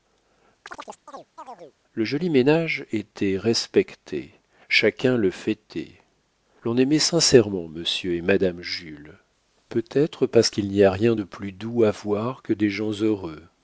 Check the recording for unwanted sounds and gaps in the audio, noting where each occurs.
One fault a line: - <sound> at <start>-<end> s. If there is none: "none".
- chirp at 0.7-1.7 s